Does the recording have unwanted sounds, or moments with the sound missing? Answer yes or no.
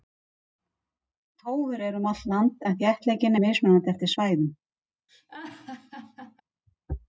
yes